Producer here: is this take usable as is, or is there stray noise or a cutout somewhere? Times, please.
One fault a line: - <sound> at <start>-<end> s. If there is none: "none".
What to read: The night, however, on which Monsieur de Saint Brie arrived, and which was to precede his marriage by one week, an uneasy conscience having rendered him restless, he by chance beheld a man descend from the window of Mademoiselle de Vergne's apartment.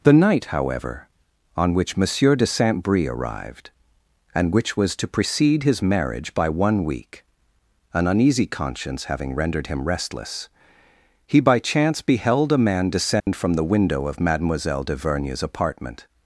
- dropout at 13.2-13.3 s